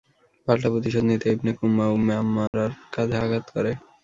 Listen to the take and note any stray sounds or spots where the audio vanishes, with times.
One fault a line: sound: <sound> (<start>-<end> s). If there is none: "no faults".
sound: dropout (2.5-2.5 s)